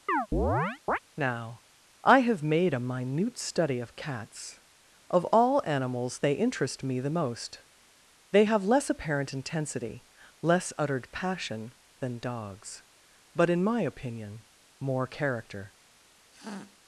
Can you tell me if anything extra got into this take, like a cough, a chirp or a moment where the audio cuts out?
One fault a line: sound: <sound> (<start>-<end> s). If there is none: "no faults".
sound: chirp (0.1-1.0 s)
sound: sniff (16.3-16.8 s)